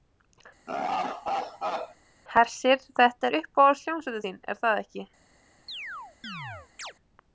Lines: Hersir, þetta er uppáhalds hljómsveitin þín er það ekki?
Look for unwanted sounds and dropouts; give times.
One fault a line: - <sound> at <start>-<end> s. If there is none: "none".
- laugh at 0.7-2.0 s
- chirp at 5.7-6.9 s